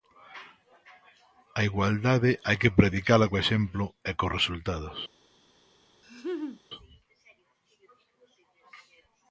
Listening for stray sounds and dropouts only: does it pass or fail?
fail